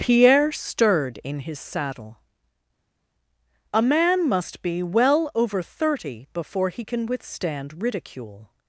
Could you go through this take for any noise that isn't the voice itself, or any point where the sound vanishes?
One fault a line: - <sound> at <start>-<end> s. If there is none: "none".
none